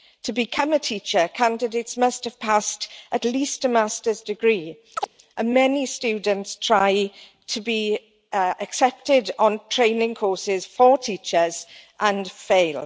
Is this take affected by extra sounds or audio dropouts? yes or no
yes